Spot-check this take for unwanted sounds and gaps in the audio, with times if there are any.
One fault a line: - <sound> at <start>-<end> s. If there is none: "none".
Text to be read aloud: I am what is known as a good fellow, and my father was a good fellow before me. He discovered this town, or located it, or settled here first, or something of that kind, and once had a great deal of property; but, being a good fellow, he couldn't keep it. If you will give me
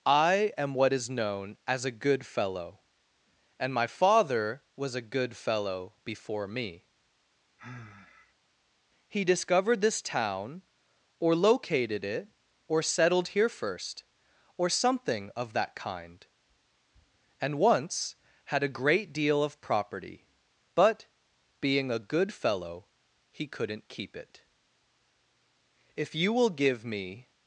- sigh at 7.6-8.3 s